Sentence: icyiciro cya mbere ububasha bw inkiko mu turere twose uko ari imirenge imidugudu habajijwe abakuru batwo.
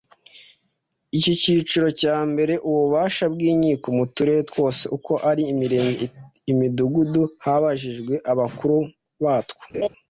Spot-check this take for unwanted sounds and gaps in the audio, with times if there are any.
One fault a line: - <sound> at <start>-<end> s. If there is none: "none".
- laugh at 9.7-9.9 s